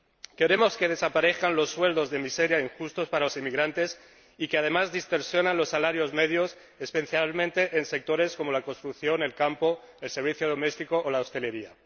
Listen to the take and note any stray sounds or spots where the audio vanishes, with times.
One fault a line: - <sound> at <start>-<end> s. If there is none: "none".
none